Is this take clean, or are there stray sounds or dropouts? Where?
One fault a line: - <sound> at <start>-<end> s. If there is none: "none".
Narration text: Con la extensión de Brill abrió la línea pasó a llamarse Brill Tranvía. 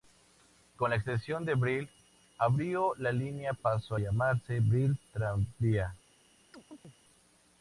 - chirp at 6.5-7.0 s